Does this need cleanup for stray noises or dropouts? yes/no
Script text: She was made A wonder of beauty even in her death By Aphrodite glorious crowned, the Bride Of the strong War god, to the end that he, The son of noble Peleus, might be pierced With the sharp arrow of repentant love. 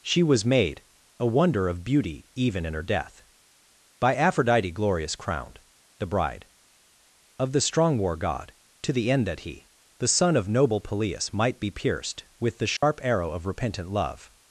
yes